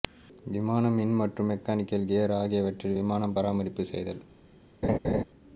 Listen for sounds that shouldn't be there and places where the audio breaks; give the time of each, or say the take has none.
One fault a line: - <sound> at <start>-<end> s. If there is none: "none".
- laugh at 4.8-5.2 s